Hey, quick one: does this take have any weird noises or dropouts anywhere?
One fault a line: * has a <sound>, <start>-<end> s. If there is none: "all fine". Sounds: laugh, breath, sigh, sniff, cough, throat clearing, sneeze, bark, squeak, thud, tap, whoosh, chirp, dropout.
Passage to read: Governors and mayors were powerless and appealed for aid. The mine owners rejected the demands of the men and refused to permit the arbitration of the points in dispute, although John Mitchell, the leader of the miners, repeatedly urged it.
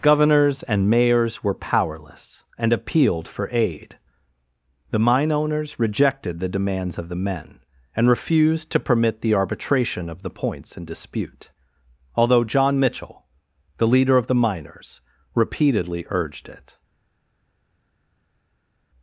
all fine